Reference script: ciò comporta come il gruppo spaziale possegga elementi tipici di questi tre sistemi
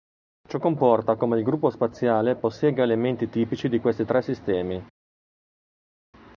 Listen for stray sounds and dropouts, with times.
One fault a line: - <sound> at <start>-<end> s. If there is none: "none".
none